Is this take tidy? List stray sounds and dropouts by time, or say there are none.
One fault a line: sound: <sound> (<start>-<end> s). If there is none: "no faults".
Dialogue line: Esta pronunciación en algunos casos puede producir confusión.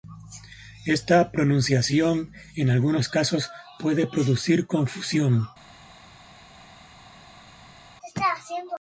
no faults